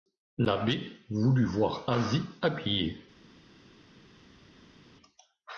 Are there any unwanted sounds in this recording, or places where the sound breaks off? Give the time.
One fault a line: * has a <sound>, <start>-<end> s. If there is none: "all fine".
all fine